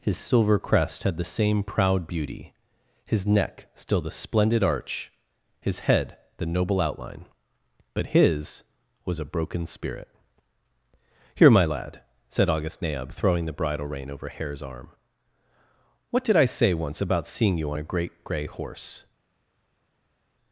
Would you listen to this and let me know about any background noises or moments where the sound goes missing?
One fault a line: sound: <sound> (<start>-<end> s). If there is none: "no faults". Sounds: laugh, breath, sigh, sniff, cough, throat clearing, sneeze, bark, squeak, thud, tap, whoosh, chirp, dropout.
no faults